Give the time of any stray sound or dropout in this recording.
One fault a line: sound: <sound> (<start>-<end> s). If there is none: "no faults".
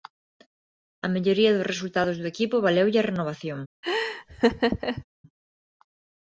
sound: laugh (3.8-5.0 s)